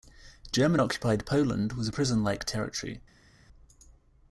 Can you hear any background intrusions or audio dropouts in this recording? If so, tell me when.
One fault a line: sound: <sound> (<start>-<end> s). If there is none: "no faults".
no faults